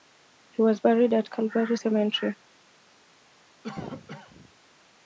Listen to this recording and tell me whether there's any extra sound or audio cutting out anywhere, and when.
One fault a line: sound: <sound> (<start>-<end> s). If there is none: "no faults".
sound: cough (3.6-4.5 s)